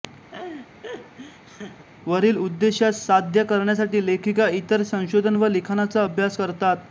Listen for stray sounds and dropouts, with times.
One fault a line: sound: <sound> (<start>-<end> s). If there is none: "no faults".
sound: laugh (0.3-1.9 s)